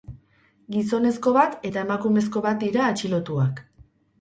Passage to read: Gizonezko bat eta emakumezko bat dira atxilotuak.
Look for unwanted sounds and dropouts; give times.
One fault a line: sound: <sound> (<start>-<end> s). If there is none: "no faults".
no faults